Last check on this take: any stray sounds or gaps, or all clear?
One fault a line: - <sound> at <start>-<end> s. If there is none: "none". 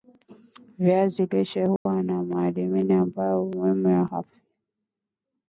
- dropout at 1.8-1.9 s